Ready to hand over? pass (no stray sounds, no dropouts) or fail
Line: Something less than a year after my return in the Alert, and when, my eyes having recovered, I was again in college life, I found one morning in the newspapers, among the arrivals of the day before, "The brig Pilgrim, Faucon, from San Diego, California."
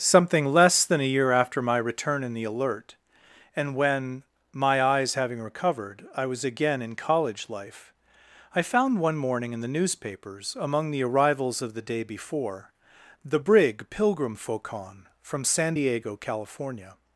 pass